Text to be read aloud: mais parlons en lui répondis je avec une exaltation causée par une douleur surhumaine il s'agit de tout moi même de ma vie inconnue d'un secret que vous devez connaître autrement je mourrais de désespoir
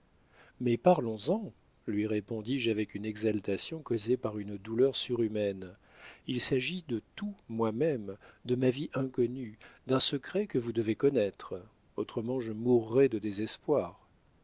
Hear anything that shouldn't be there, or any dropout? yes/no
no